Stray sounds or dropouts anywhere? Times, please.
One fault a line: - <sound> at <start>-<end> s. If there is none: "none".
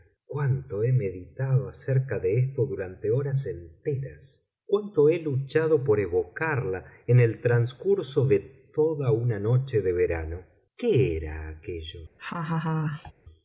- laugh at 12.2-13.1 s